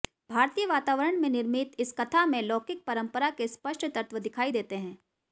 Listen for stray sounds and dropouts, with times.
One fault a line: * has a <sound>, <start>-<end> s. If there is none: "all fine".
all fine